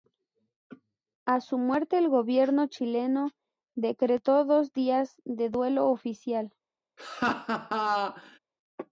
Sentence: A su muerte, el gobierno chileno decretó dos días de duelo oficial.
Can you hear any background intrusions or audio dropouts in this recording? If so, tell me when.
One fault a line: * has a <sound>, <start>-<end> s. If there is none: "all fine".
* has a laugh, 7.0-8.4 s